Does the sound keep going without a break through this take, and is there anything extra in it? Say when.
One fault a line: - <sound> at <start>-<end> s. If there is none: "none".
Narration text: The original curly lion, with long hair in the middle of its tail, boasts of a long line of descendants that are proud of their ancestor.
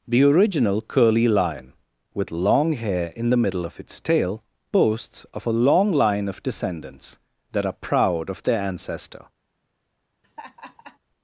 - laugh at 10.2-11.0 s